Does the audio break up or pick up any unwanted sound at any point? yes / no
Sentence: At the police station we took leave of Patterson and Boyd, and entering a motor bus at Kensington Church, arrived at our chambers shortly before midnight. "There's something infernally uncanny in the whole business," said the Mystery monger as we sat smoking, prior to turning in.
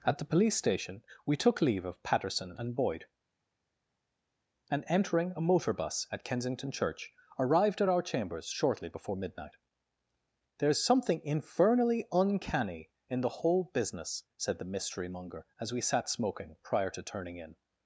no